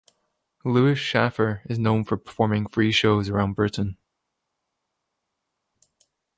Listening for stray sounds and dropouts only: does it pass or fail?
pass